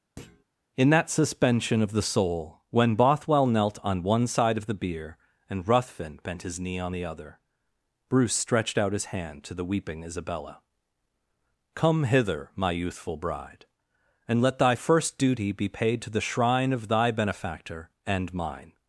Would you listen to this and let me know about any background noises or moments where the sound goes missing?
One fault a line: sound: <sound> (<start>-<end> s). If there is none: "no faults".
sound: thud (0.2-0.4 s)